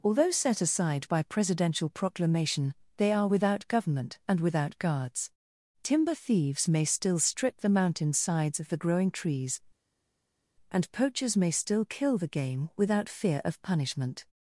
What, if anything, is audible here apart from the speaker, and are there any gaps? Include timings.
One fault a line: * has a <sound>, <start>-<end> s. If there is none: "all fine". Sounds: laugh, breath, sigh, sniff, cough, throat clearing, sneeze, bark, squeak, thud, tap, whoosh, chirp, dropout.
all fine